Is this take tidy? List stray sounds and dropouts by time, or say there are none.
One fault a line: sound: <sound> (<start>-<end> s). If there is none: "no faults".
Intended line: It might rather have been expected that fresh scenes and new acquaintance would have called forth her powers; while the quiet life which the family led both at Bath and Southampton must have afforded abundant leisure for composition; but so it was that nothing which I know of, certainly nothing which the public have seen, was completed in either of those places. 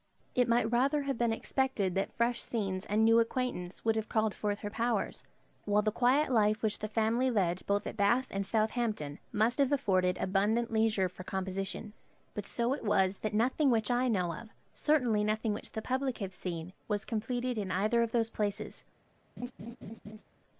sound: laugh (19.4-20.2 s)